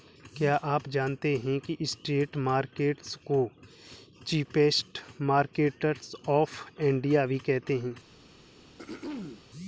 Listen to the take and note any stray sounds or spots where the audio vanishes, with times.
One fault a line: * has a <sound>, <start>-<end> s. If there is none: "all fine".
* has a throat clearing, 8.8-9.4 s